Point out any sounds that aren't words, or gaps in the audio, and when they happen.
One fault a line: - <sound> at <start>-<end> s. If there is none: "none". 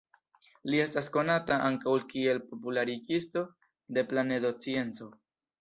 none